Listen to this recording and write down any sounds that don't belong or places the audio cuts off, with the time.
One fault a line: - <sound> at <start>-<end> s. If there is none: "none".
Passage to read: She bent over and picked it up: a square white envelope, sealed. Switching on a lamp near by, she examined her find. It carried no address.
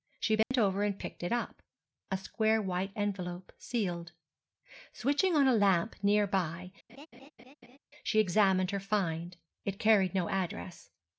- dropout at 0.4-0.5 s
- laugh at 6.9-7.8 s